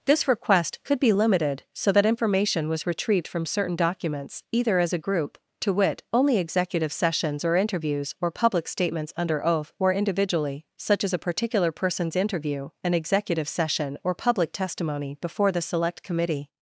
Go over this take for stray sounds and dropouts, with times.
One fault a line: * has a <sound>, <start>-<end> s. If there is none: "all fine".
all fine